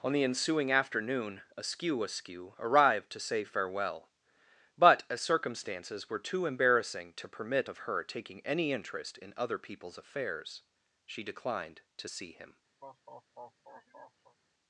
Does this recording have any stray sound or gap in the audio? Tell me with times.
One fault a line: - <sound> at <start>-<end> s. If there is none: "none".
- laugh at 12.8-14.4 s